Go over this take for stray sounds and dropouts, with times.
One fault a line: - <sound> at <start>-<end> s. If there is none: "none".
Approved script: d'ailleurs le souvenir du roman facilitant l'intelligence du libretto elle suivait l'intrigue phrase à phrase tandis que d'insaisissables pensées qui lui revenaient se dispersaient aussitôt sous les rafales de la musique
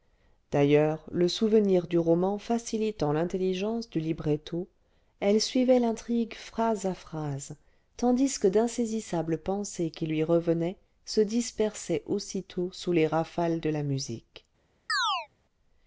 - chirp at 14.9-15.3 s